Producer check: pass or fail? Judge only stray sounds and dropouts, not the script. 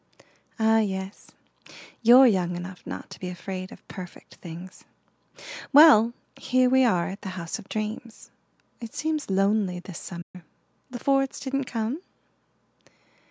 fail